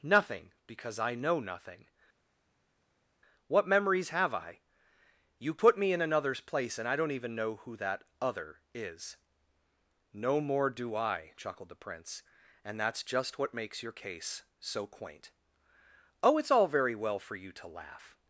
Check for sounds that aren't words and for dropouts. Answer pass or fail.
pass